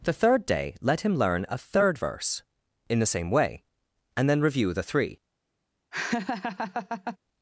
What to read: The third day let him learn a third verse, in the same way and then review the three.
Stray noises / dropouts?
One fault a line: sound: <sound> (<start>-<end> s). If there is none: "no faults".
sound: laugh (5.9-7.2 s)